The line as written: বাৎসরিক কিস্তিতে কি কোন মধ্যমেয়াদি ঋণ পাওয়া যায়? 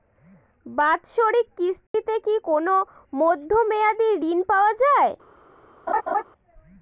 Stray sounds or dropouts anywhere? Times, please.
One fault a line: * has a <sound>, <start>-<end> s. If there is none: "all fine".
* has a dropout, 1.9-1.9 s
* has a laugh, 5.9-6.2 s